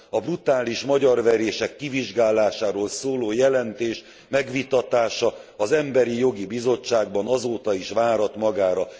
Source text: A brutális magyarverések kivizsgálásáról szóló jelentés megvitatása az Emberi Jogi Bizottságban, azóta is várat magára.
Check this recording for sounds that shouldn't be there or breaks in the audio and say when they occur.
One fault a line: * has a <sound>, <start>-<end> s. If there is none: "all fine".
all fine